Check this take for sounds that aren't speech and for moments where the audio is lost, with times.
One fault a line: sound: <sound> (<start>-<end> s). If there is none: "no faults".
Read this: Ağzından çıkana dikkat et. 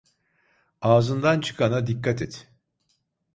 no faults